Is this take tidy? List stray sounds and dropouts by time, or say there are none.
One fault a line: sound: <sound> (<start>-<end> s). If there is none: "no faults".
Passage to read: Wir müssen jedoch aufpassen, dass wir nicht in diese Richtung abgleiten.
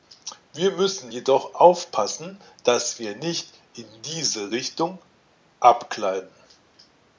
no faults